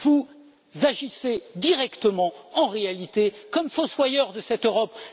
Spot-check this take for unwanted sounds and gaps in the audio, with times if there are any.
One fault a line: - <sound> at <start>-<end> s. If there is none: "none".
none